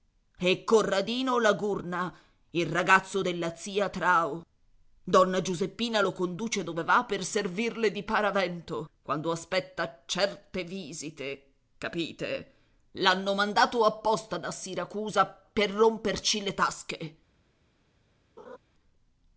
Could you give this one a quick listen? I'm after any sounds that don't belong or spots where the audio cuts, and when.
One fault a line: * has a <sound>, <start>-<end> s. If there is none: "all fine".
* has a laugh, 18.4-18.6 s